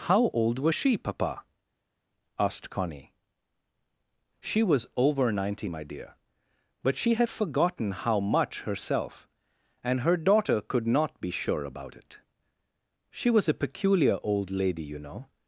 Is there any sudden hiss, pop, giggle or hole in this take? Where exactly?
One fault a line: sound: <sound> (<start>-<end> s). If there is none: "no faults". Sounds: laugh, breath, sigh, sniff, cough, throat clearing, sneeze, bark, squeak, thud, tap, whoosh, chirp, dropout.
no faults